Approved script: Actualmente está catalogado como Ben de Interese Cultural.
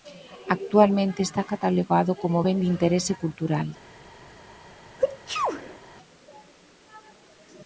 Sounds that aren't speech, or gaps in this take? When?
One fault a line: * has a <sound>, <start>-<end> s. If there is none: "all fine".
* has a sneeze, 5.0-5.8 s